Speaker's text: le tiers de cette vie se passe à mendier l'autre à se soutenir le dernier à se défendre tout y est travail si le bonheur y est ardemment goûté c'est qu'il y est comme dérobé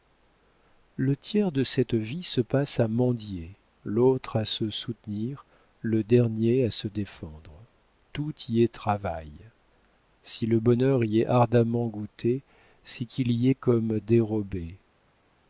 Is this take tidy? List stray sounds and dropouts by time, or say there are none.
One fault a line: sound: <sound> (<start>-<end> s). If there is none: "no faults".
no faults